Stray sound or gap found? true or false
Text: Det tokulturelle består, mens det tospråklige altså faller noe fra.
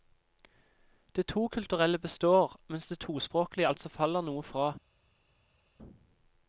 false